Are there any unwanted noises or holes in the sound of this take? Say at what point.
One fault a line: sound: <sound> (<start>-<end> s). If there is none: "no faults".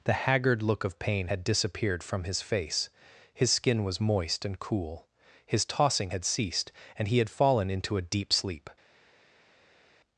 no faults